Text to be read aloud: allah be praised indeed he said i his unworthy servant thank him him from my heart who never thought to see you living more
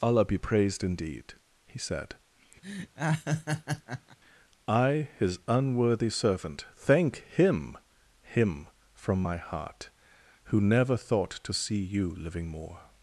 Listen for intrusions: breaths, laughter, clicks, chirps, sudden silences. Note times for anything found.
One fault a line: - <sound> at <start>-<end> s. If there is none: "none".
- laugh at 2.6-4.2 s